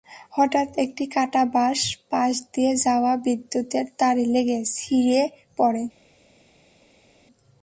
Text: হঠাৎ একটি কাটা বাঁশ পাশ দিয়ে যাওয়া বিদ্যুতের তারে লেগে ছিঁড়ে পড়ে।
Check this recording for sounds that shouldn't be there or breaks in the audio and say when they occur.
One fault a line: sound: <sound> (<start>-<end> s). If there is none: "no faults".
no faults